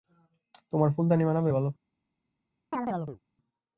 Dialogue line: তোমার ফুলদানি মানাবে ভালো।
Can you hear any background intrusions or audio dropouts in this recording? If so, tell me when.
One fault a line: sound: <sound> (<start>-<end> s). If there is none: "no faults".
sound: chirp (2.7-3.2 s)